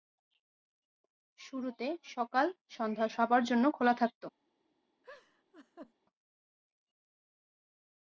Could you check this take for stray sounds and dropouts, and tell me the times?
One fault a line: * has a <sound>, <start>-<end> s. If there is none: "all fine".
* has a laugh, 5.0-5.9 s